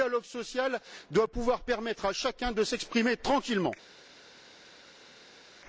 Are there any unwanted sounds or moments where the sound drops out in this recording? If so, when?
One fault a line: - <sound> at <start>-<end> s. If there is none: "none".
none